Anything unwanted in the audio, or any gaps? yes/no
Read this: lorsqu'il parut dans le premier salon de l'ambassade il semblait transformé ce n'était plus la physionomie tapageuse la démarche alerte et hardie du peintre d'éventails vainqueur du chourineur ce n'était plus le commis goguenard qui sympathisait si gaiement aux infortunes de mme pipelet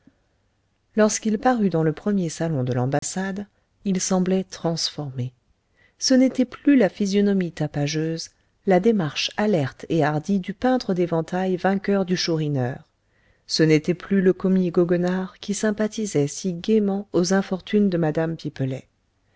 yes